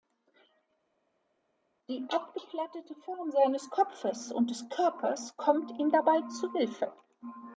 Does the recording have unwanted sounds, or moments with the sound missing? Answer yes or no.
no